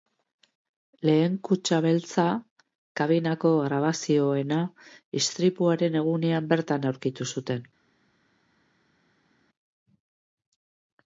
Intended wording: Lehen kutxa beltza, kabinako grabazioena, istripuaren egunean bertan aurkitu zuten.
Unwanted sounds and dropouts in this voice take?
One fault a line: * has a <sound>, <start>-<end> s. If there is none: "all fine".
all fine